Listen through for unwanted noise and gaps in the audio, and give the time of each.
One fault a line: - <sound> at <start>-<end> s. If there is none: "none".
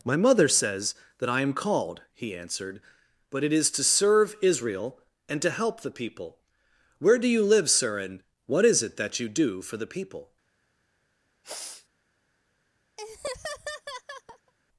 - sniff at 11.4-11.9 s
- laugh at 13.0-14.5 s